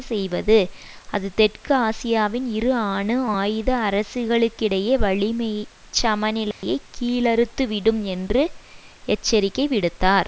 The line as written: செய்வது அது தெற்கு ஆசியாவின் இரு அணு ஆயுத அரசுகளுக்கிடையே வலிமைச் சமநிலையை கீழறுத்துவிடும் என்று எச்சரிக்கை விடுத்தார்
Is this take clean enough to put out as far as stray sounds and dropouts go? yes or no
no